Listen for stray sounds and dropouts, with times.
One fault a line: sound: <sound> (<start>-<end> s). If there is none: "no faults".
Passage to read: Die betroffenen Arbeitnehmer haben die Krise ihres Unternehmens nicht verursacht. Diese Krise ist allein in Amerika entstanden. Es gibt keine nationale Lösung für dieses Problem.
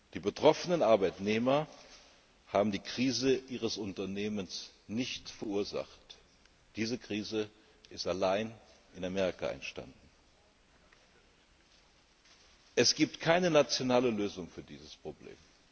no faults